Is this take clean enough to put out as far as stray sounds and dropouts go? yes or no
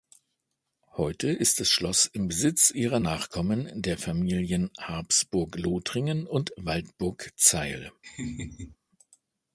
no